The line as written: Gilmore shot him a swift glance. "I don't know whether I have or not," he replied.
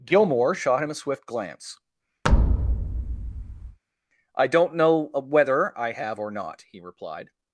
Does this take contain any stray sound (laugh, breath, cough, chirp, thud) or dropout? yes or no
yes